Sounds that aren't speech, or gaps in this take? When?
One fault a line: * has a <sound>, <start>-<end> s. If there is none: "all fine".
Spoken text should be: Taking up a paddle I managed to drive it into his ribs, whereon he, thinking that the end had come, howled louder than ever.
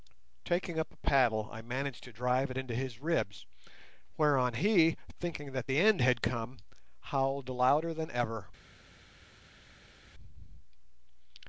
all fine